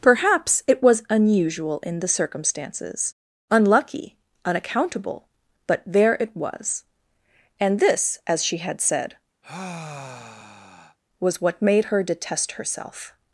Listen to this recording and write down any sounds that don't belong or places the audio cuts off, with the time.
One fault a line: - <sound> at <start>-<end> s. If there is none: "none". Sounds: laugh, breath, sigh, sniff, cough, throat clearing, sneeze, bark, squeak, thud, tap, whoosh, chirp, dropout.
- sigh at 9.4-11.0 s